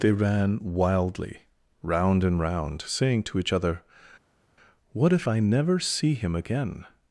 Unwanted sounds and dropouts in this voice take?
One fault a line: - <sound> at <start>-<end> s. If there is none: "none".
none